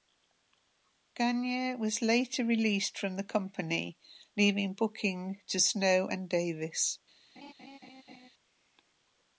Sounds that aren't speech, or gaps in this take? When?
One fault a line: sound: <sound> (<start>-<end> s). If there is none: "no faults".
sound: laugh (7.4-8.3 s)